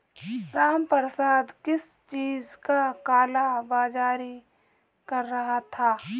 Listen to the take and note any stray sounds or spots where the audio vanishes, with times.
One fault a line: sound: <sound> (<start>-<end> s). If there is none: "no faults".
no faults